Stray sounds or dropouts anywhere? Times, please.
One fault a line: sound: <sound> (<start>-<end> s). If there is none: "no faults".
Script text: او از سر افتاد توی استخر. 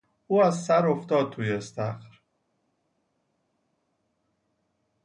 no faults